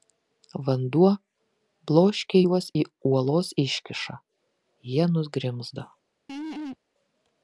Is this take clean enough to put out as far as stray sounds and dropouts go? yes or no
no